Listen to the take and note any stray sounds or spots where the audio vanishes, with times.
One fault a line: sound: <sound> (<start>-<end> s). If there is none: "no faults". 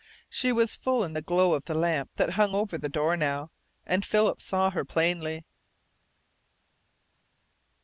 no faults